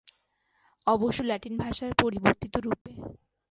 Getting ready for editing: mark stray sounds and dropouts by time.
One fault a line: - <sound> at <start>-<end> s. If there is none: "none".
- dropout at 2.8-2.9 s